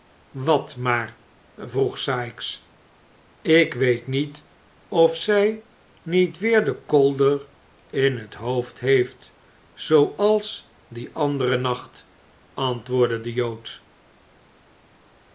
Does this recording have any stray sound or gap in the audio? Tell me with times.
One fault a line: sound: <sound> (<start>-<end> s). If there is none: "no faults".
no faults